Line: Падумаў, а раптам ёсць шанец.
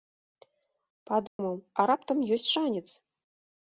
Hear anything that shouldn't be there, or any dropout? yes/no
yes